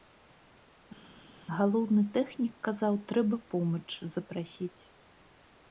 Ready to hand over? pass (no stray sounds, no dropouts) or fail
pass